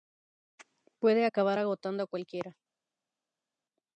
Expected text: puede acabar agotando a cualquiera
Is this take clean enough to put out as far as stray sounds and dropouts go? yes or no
yes